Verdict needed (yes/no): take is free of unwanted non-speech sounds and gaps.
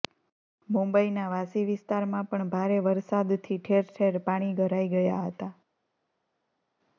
yes